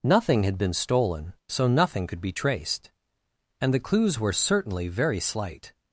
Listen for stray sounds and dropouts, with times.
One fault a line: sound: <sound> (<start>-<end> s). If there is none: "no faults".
no faults